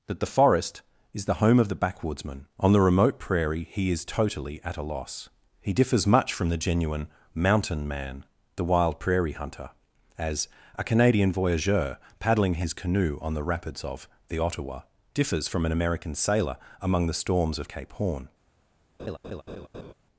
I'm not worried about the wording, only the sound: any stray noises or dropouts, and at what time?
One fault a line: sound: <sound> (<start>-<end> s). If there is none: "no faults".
sound: laugh (19.0-19.9 s)